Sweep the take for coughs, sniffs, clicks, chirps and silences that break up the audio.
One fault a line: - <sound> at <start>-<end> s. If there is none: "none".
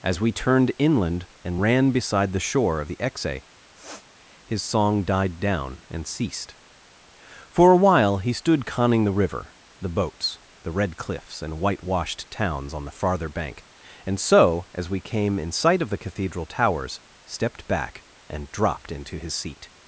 - sniff at 3.7-4.1 s